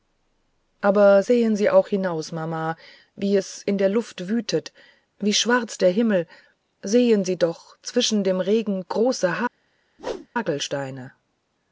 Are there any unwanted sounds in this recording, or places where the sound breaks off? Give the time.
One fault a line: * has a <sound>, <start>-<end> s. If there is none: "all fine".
* has a whoosh, 10.0-10.3 s